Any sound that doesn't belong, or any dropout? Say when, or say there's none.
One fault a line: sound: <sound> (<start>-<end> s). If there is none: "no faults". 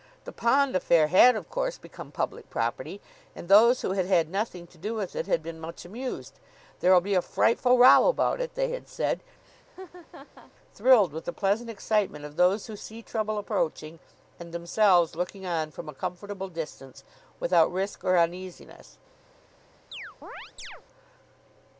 sound: laugh (9.4-10.5 s)
sound: chirp (19.9-20.8 s)